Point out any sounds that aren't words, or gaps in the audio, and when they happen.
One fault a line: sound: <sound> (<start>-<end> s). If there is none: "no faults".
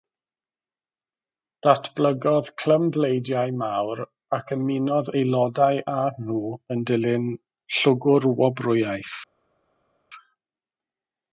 no faults